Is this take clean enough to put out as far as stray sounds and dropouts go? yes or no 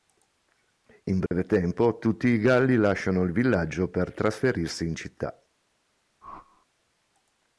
no